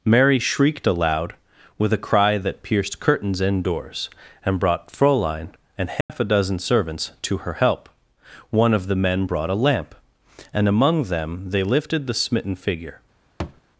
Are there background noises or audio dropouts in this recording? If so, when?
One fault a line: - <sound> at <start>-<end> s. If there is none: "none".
- dropout at 6.0-6.1 s
- thud at 13.4-13.6 s